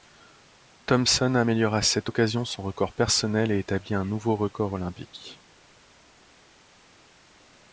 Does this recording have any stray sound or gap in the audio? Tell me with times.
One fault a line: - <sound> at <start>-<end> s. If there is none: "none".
none